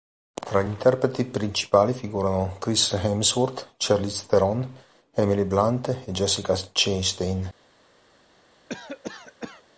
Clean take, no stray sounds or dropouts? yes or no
no